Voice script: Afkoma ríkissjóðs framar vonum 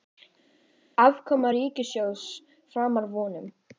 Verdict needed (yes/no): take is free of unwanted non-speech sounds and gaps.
yes